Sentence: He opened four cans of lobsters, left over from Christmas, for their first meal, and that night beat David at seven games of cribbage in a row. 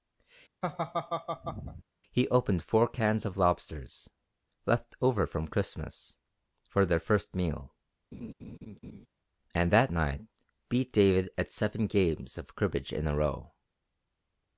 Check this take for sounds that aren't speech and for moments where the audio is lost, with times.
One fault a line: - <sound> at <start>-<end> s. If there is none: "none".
- laugh at 0.6-1.8 s
- laugh at 8.1-9.1 s